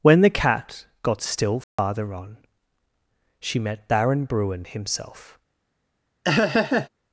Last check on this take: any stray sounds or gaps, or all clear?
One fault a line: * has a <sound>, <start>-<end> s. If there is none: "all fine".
* has a dropout, 1.6-1.8 s
* has a laugh, 6.2-6.9 s